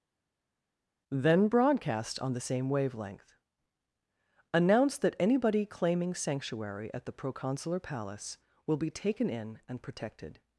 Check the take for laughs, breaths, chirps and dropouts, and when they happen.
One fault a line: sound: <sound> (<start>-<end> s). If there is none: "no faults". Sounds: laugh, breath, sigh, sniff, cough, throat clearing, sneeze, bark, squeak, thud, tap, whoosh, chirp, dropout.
no faults